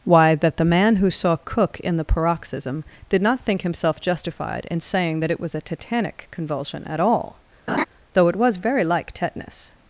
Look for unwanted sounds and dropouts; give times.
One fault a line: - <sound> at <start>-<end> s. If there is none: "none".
- laugh at 7.7-7.8 s